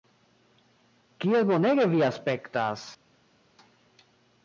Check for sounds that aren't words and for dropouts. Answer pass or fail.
pass